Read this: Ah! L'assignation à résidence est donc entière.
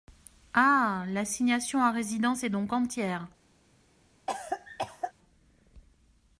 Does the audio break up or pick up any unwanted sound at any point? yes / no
yes